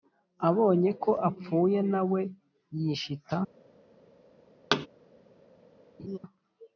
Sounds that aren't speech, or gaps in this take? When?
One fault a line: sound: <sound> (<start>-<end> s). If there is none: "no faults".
sound: thud (4.7-4.9 s)
sound: laugh (6.0-6.2 s)